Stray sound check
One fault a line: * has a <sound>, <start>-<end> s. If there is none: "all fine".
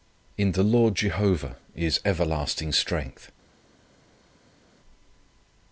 all fine